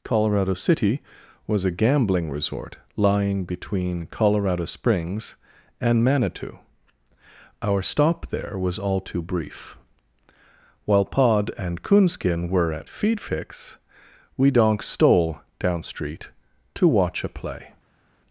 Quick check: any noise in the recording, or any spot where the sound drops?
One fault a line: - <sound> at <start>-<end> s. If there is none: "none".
none